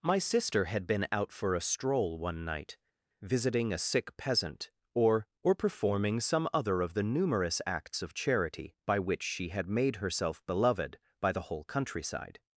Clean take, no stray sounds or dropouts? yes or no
yes